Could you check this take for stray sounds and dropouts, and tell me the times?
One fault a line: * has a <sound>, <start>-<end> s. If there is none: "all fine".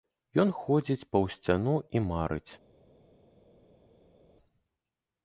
all fine